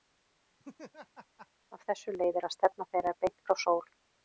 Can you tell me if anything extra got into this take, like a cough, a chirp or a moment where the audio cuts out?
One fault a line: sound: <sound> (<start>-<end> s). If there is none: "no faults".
sound: laugh (0.6-1.5 s)